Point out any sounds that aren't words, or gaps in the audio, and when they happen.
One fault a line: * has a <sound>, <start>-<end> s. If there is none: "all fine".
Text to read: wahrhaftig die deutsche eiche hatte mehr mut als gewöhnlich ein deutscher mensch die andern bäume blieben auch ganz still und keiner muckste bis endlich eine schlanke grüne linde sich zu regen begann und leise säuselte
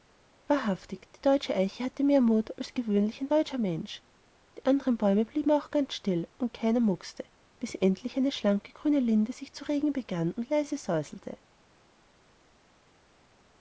all fine